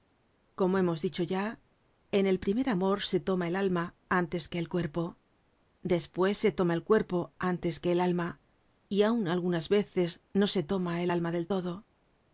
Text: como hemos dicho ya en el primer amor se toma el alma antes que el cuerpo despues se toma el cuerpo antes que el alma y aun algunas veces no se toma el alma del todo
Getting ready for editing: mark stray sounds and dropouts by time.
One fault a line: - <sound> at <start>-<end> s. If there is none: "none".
none